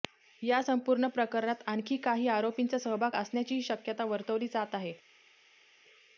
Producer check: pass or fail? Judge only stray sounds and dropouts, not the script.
pass